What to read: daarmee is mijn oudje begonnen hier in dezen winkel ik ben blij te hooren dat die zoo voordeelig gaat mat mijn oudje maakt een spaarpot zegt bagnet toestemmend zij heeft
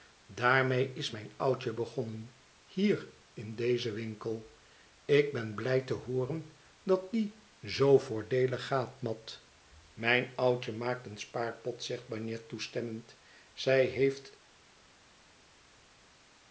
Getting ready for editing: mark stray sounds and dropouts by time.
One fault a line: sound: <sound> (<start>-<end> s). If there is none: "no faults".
no faults